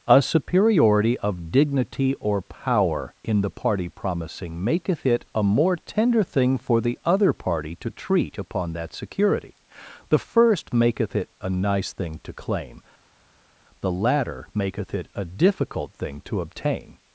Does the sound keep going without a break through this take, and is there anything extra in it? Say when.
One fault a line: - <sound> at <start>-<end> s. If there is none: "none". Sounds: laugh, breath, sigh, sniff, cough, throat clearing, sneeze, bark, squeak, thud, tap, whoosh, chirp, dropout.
none